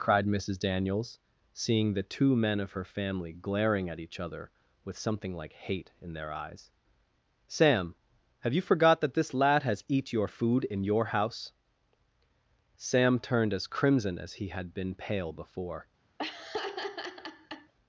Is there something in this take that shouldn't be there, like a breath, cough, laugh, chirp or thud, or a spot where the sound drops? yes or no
yes